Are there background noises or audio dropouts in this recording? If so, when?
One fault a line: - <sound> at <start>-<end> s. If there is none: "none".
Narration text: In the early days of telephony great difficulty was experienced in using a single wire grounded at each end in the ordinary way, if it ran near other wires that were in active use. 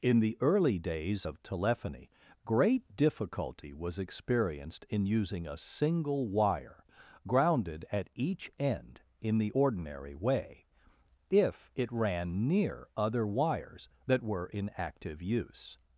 none